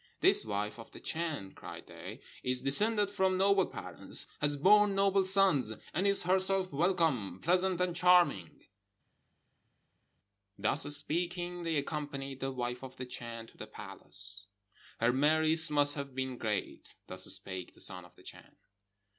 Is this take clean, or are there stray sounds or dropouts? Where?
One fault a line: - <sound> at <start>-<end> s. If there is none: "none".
none